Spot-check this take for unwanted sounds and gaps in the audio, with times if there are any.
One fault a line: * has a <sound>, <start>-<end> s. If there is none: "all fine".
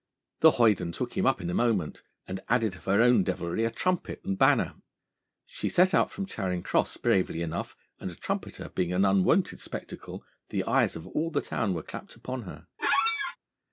* has a squeak, 12.8-13.4 s